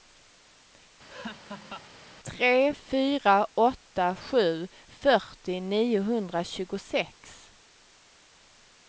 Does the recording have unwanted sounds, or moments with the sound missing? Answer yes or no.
yes